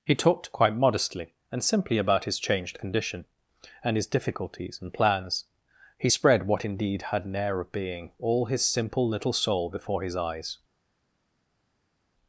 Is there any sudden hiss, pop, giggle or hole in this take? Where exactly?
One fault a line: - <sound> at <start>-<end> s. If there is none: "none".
none